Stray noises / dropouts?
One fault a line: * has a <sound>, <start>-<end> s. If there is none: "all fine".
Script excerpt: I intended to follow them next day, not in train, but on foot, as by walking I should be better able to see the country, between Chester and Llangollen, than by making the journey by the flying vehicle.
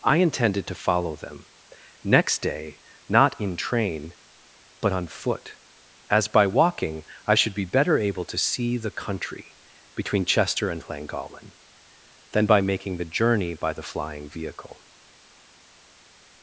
all fine